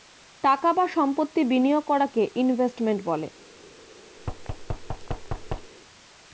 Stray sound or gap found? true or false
true